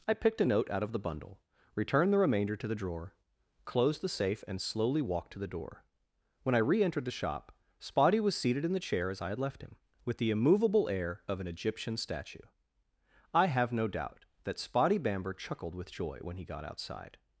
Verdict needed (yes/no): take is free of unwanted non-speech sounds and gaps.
yes